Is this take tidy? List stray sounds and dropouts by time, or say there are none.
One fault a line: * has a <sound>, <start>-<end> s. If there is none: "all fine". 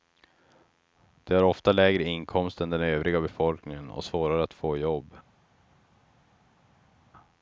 all fine